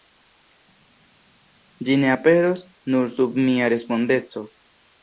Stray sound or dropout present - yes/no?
no